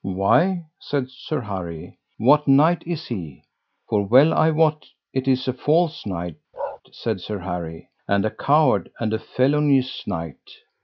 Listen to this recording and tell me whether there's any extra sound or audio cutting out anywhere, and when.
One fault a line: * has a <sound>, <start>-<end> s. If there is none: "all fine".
* has a bark, 6.5-6.8 s